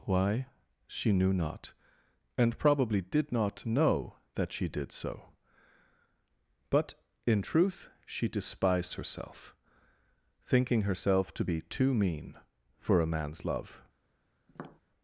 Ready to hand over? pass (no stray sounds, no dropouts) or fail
fail